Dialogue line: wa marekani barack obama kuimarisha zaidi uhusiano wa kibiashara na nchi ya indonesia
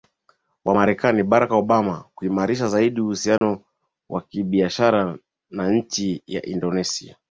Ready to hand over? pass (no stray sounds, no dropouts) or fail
fail